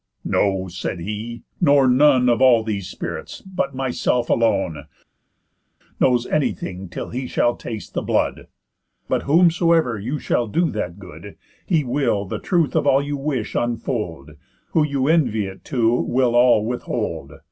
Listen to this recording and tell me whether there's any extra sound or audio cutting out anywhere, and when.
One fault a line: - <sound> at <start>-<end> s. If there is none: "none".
none